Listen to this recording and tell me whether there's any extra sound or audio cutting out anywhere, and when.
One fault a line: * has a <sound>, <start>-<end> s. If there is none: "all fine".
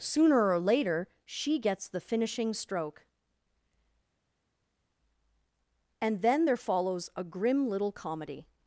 all fine